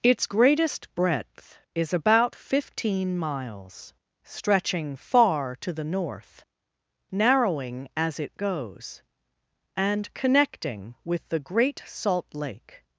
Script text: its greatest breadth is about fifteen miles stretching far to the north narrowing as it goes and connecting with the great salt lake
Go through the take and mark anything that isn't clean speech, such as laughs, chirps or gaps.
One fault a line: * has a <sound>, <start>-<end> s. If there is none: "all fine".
all fine